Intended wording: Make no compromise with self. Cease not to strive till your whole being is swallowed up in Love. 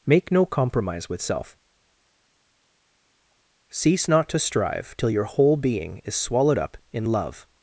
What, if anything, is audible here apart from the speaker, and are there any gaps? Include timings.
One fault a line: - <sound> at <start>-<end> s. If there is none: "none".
none